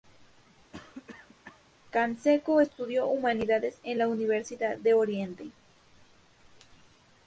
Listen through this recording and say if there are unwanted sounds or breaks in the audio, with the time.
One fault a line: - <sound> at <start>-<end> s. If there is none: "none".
- cough at 0.7-1.6 s